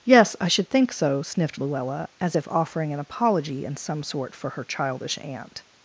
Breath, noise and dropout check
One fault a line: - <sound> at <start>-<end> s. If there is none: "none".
none